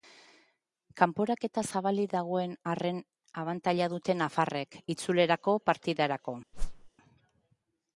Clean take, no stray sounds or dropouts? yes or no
no